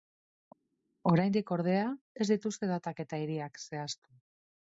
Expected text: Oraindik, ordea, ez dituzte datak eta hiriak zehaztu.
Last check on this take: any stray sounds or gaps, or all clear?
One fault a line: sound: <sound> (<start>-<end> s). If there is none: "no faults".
no faults